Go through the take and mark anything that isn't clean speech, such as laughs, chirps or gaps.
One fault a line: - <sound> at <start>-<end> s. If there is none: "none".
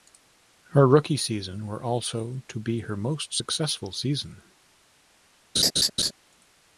- laugh at 5.6-6.1 s